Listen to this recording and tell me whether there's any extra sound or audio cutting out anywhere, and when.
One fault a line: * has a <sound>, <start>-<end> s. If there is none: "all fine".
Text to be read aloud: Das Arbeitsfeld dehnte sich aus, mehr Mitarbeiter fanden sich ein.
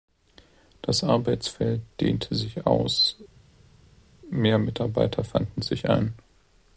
all fine